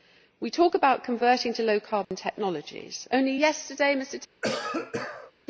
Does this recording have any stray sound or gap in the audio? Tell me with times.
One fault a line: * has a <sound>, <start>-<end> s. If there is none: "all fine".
* has a dropout, 2.0-2.1 s
* has a cough, 4.4-5.3 s